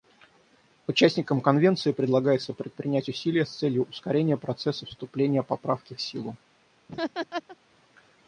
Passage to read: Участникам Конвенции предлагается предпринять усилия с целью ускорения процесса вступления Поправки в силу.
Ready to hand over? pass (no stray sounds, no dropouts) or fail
fail